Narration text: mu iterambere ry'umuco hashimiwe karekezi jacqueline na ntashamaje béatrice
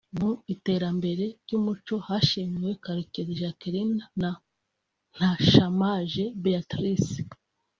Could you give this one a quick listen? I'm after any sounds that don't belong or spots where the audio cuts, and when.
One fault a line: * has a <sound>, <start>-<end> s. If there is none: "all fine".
all fine